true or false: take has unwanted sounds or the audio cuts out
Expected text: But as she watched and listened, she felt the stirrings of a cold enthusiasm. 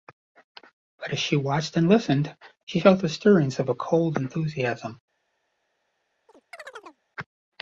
true